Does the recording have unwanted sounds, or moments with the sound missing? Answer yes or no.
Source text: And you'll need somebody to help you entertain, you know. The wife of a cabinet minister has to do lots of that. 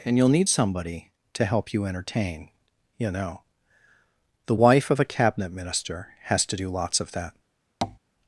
yes